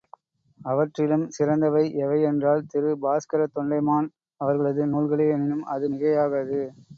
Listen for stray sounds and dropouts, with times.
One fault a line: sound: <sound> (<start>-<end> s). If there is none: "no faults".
no faults